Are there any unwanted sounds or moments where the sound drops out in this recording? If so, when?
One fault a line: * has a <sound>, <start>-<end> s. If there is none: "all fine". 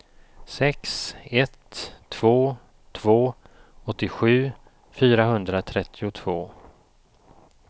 all fine